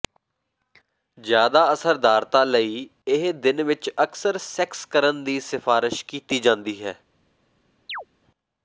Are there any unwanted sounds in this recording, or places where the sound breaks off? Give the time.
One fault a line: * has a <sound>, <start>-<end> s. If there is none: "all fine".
* has a chirp, 7.9-8.1 s